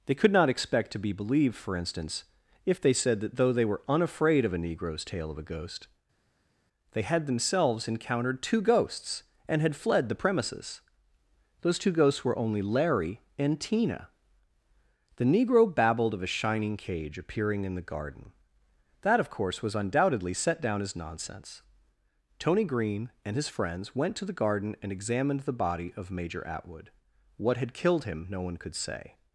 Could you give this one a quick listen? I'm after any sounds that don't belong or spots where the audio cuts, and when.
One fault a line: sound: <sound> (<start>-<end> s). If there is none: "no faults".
no faults